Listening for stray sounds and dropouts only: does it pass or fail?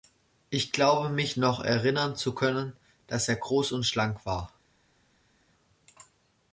pass